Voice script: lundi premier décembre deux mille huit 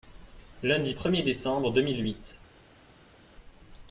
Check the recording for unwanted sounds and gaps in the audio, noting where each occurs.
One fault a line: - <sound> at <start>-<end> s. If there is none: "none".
none